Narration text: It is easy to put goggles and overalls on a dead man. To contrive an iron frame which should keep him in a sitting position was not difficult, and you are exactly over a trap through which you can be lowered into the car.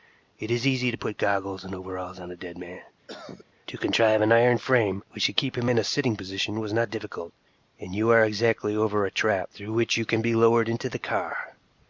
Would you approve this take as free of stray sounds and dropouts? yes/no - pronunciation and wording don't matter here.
no